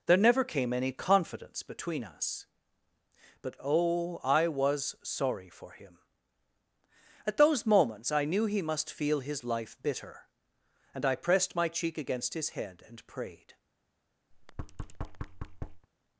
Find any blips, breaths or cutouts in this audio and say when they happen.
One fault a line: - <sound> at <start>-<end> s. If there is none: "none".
- thud at 14.3-15.9 s